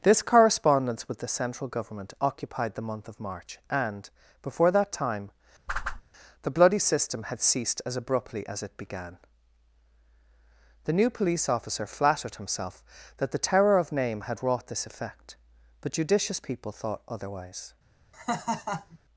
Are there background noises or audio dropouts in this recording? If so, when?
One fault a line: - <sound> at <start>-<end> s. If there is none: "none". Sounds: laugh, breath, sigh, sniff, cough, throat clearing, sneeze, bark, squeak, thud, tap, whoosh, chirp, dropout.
- whoosh at 5.7-6.0 s
- laugh at 18.1-19.0 s